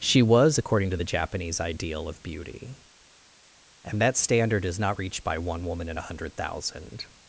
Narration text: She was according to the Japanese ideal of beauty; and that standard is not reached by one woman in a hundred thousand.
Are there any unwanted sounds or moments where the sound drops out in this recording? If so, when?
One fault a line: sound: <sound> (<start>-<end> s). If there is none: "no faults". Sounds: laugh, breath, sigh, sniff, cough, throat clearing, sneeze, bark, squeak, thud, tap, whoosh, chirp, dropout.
no faults